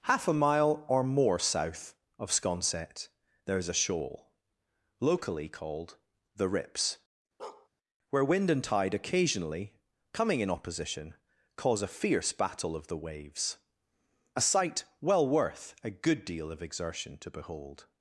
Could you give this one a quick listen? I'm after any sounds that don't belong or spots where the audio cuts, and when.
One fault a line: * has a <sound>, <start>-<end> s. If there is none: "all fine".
* has a bark, 7.4-7.7 s